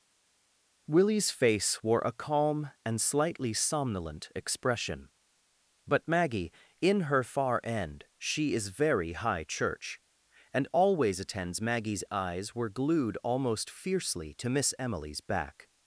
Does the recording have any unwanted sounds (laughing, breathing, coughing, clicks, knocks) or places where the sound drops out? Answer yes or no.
no